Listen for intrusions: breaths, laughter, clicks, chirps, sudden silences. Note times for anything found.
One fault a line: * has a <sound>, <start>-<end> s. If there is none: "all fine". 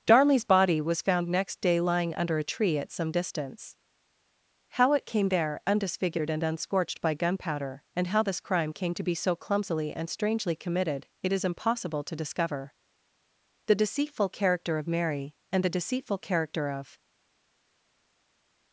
all fine